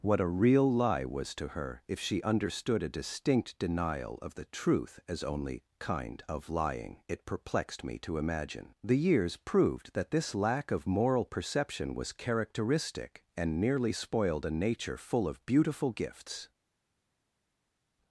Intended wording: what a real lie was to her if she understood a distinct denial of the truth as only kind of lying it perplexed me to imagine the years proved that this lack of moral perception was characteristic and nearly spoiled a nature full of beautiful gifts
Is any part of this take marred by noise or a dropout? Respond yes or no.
no